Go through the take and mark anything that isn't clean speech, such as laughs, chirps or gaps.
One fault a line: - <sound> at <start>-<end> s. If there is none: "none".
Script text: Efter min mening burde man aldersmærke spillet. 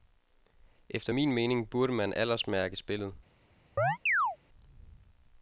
- chirp at 3.8-4.4 s